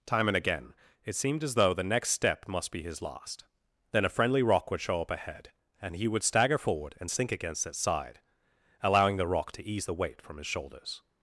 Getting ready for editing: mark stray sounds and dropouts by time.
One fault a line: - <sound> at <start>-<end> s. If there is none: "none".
none